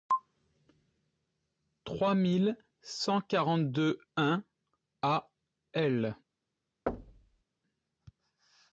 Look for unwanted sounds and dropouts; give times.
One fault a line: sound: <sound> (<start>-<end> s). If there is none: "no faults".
sound: thud (6.9-7.4 s)